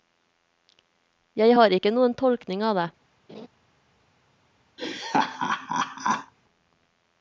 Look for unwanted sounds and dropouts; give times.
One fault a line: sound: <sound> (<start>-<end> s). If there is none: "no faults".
sound: laugh (3.3-3.5 s)
sound: laugh (4.8-6.3 s)